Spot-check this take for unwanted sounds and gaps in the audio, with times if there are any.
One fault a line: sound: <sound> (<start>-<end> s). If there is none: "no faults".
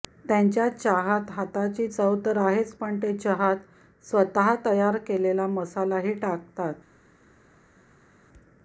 no faults